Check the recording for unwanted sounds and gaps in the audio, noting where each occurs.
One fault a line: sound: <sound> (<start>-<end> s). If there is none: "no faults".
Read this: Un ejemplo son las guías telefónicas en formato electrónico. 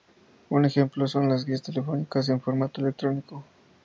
no faults